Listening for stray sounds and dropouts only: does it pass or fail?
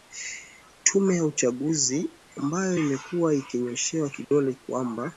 fail